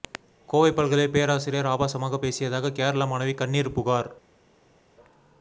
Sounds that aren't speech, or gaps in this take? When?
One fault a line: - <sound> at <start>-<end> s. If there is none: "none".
none